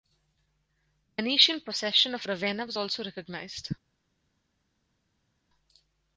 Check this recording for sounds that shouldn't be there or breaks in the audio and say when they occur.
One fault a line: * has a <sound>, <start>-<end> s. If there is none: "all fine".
all fine